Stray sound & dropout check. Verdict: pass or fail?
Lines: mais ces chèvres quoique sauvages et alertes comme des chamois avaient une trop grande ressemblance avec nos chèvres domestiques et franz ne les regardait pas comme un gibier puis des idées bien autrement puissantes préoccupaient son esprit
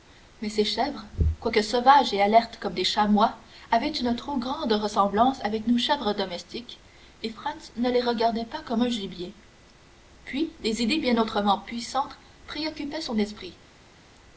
pass